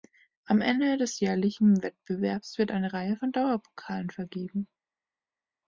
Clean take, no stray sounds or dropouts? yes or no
yes